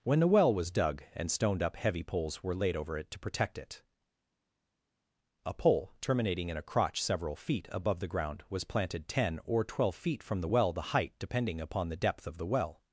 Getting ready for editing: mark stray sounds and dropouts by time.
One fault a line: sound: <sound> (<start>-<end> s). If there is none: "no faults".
no faults